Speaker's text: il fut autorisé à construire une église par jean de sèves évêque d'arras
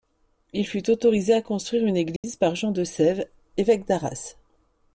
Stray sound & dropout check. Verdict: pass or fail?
fail